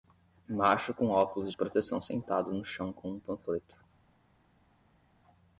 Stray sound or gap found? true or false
false